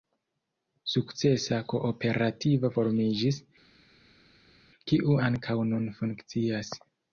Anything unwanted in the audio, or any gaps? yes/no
no